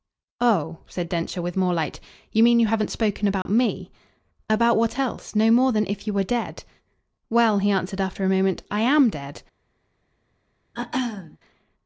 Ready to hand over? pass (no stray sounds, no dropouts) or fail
fail